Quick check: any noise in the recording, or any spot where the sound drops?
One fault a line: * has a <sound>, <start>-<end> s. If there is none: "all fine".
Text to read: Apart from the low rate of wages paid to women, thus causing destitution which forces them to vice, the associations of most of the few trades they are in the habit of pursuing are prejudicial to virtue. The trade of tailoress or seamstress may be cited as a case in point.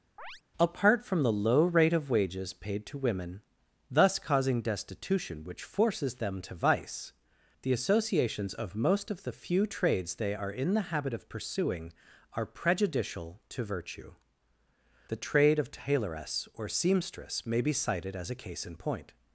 * has a chirp, 0.2-0.4 s